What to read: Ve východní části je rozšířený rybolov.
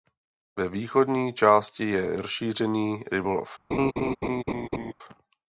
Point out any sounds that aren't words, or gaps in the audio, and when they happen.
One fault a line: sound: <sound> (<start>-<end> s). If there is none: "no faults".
sound: laugh (3.7-4.9 s)